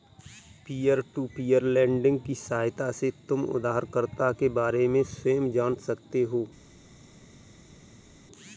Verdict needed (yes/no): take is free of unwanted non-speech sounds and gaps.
yes